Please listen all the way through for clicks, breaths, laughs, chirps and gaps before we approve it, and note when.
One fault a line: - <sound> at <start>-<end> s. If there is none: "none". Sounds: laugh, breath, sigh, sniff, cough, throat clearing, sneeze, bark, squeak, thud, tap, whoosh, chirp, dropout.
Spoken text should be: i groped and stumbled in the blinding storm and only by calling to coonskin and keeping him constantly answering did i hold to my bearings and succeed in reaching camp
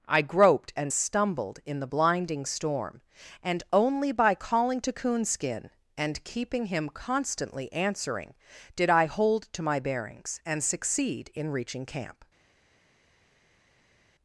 none